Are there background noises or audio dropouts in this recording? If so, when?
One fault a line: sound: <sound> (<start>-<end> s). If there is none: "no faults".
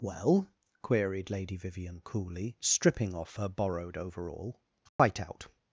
sound: dropout (4.9-5.0 s)